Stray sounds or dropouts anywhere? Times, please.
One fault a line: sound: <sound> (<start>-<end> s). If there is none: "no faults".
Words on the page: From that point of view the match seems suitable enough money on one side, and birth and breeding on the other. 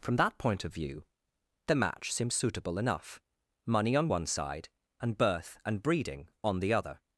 no faults